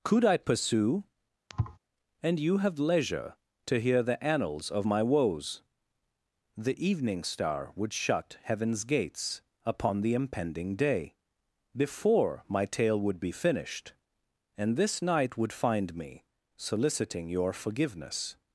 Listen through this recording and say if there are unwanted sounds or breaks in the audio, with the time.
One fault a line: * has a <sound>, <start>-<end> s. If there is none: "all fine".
* has a thud, 1.5-1.8 s